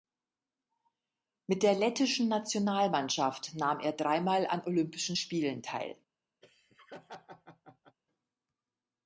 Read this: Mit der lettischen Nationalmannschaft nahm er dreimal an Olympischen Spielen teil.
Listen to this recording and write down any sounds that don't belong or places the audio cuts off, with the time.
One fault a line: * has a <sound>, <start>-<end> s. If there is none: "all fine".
* has a laugh, 6.4-8.0 s